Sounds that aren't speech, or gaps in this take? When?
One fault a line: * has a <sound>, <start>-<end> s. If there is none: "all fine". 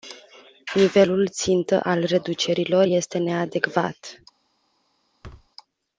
* has a thud, 5.2-5.5 s